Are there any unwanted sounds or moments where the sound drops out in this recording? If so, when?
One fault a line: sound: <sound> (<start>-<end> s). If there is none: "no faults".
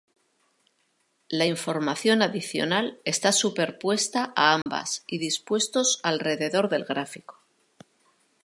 sound: dropout (4.6-4.7 s)